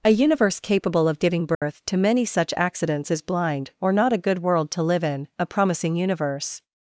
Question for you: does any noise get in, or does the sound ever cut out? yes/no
yes